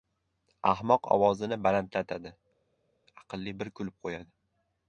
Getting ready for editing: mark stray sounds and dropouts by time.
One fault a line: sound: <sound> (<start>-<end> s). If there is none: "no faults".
no faults